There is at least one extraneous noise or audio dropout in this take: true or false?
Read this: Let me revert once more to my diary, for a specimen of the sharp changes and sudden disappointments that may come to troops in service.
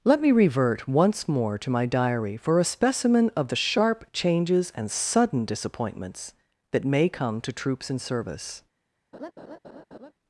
true